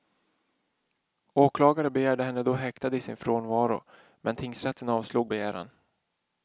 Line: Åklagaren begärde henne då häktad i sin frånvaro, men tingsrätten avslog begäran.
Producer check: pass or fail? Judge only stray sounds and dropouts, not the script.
pass